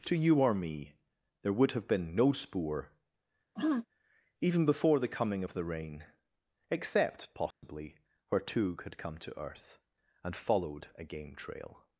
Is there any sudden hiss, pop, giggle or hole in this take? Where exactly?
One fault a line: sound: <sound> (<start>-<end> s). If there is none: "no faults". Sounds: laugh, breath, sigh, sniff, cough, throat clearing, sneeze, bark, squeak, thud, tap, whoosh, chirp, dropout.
sound: throat clearing (3.6-3.9 s)
sound: dropout (7.5-7.6 s)